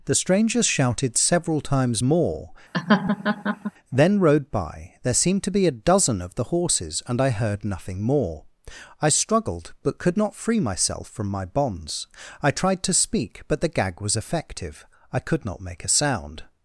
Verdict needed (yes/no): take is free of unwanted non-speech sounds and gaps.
no